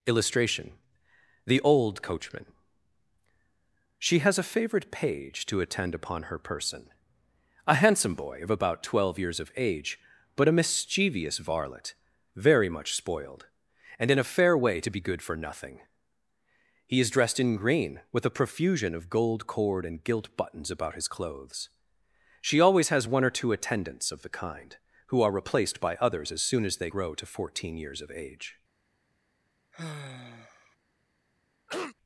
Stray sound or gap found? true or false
true